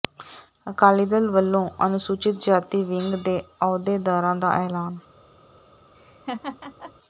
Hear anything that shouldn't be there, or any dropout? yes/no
yes